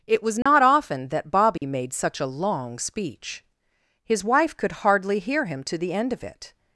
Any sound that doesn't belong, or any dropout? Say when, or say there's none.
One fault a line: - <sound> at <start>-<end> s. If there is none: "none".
- dropout at 0.4-0.5 s
- dropout at 1.6-1.6 s